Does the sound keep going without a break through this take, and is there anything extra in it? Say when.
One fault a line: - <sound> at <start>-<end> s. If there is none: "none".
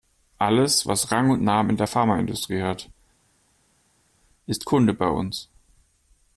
none